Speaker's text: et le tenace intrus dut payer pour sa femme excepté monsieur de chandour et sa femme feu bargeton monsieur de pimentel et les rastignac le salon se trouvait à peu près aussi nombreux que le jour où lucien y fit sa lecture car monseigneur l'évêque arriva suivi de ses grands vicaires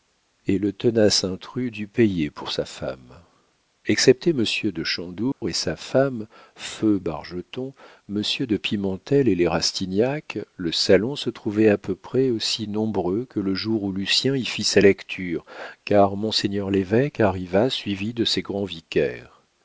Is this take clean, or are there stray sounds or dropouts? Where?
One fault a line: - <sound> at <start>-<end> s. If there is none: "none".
- dropout at 5.3-5.4 s